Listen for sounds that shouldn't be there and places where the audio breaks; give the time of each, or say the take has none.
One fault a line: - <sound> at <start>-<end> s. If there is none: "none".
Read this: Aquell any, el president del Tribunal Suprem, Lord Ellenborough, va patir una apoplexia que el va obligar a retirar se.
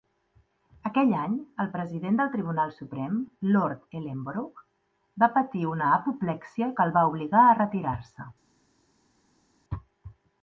none